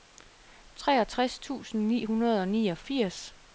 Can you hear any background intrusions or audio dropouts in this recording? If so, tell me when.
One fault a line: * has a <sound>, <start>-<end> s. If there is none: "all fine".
all fine